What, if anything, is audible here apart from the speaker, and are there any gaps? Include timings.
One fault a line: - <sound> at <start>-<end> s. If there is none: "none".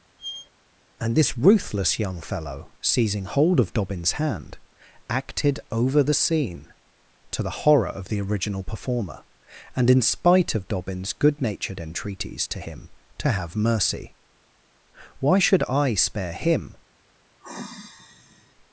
- squeak at 0.2-0.5 s
- sigh at 17.4-18.5 s